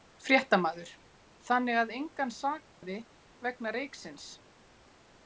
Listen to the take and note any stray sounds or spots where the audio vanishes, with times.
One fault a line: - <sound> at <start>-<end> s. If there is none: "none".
- dropout at 2.7-2.8 s